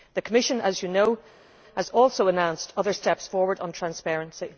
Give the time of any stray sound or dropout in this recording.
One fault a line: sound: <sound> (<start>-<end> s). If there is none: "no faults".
no faults